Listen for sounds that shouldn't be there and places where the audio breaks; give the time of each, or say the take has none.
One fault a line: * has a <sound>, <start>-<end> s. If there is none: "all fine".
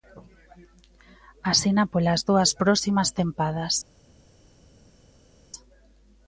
all fine